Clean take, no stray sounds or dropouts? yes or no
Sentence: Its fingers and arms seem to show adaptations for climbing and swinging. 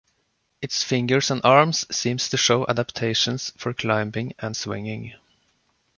yes